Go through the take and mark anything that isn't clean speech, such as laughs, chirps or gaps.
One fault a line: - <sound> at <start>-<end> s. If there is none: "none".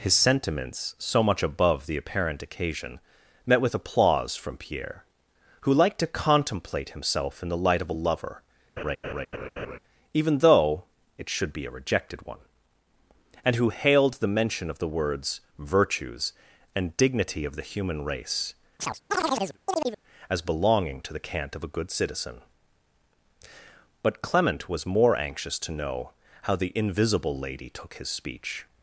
- laugh at 8.8-9.8 s
- chirp at 18.8-20.0 s